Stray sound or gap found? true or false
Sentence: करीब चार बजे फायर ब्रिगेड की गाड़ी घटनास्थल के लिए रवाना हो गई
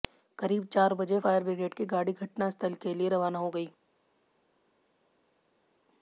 false